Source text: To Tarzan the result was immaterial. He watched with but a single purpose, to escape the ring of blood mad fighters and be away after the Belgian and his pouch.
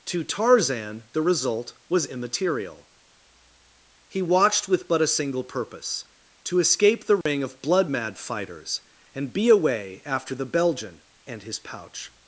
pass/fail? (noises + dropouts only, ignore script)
fail